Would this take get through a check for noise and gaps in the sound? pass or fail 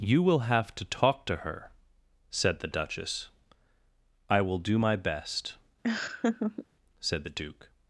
fail